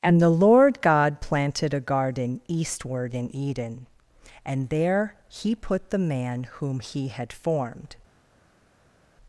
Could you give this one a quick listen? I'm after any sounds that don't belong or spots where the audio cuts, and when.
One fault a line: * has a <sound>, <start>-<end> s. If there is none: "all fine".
all fine